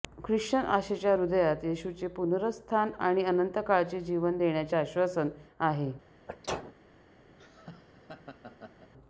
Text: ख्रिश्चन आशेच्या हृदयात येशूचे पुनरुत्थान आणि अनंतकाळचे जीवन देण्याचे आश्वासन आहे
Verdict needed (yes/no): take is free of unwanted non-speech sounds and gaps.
no